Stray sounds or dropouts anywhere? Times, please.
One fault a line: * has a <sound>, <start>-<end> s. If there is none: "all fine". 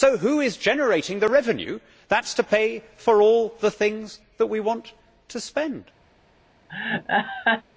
* has a laugh, 6.7-7.6 s